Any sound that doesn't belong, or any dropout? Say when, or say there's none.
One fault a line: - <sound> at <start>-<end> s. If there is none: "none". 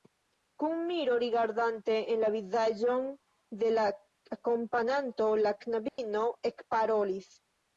- dropout at 5.9-6.0 s